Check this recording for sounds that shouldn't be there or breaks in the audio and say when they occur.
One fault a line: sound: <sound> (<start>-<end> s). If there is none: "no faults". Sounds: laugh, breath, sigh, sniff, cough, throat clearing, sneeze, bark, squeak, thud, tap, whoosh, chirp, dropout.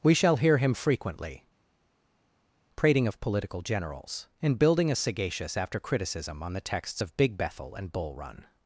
no faults